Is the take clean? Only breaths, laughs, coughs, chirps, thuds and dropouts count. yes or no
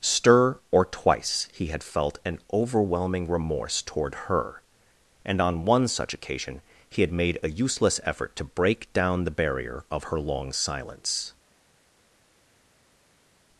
yes